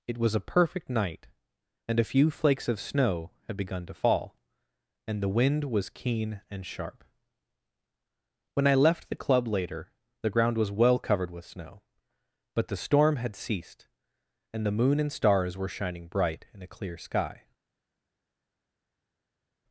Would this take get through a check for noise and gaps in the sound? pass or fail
pass